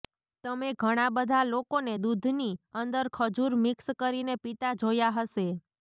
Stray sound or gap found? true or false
false